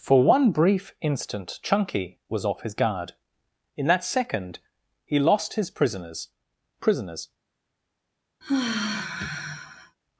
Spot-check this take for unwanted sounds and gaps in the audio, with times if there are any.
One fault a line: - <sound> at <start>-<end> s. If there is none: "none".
- sigh at 8.4-10.0 s